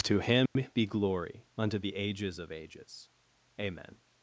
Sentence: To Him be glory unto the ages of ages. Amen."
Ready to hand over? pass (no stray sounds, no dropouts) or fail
fail